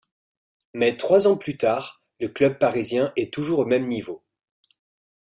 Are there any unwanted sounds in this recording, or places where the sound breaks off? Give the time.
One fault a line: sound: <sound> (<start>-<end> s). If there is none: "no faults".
no faults